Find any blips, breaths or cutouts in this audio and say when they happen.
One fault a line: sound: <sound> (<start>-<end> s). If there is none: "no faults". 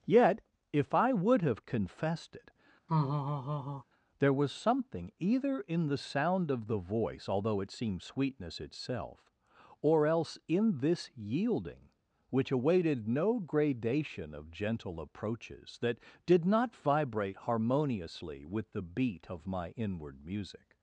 sound: laugh (2.9-3.8 s)